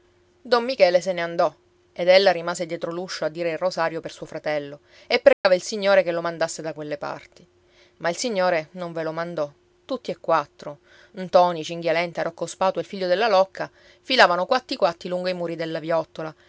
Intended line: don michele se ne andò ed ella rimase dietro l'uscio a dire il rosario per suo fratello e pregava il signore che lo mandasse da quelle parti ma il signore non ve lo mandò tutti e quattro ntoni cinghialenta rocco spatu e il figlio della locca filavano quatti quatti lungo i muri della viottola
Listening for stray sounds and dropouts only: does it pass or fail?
fail